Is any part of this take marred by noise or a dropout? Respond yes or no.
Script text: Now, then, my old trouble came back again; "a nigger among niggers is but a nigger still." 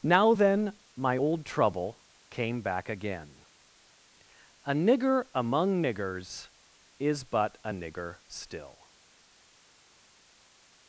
no